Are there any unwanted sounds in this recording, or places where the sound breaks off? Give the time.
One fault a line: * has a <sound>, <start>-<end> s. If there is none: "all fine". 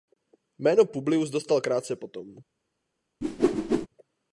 * has a whoosh, 3.2-3.9 s